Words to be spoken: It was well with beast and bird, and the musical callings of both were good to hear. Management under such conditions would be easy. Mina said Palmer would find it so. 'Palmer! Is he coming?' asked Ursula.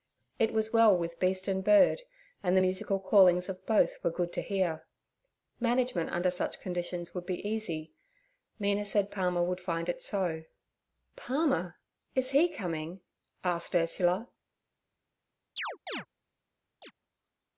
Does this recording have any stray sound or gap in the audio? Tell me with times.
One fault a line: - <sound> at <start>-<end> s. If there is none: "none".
- chirp at 15.6-16.1 s
- chirp at 16.8-16.9 s